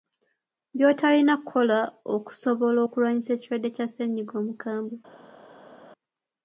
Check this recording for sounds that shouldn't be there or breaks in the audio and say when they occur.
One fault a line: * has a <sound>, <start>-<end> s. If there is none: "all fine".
all fine